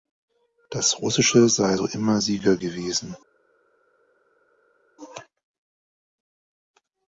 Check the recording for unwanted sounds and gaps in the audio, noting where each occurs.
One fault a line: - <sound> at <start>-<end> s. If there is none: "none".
none